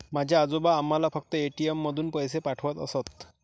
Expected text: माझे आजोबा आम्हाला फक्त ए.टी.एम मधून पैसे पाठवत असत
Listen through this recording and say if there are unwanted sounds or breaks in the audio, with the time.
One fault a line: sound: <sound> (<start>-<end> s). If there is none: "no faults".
no faults